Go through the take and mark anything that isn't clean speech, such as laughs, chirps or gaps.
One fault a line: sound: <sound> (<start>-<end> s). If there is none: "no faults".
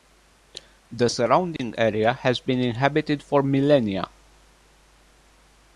sound: dropout (1.6-1.6 s)